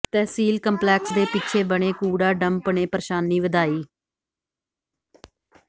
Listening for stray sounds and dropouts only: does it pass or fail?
pass